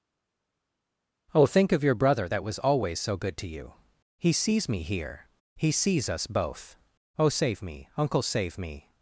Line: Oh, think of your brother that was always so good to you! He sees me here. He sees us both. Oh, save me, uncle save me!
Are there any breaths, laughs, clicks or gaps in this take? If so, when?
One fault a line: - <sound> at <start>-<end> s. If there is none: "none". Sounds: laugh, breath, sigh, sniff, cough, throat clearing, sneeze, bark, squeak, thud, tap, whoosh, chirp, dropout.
none